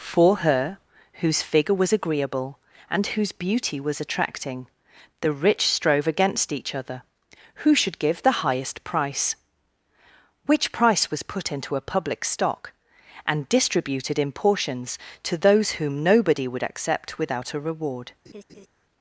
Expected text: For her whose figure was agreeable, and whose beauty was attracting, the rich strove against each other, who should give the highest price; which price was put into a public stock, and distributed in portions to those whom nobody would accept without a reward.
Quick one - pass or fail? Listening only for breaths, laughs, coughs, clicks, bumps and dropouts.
fail